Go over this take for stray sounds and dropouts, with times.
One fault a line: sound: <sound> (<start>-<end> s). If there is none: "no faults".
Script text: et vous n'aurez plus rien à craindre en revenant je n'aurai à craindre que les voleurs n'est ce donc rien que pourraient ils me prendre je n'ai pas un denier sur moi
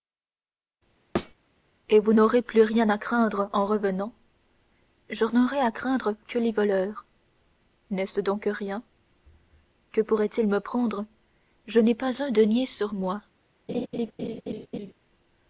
sound: thud (1.2-1.4 s)
sound: laugh (13.7-14.9 s)